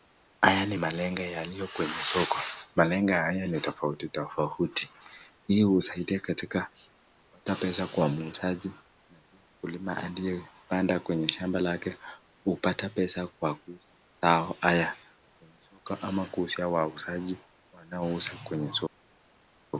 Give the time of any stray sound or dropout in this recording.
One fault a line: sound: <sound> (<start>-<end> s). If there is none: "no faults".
no faults